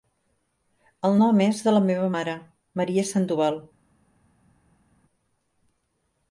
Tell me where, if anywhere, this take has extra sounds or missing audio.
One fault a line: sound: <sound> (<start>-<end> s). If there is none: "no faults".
no faults